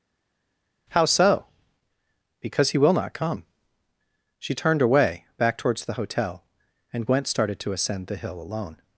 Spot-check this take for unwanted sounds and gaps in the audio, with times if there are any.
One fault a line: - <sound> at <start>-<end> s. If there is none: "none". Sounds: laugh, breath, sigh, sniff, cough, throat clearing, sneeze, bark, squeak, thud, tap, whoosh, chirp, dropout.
none